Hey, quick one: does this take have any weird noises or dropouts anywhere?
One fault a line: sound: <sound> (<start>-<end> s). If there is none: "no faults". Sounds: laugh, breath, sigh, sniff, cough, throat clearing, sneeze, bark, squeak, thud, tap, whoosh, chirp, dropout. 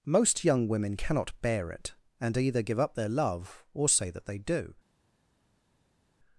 no faults